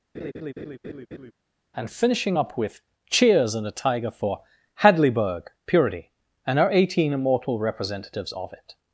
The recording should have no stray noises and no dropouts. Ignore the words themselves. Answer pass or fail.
fail